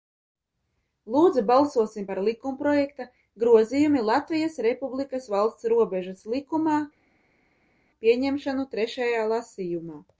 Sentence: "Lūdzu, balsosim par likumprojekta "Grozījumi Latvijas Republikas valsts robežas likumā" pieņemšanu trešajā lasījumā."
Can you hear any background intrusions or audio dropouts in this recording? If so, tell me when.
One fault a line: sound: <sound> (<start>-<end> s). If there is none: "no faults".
no faults